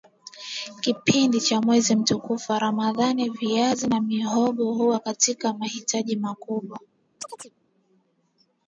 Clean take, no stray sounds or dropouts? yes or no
no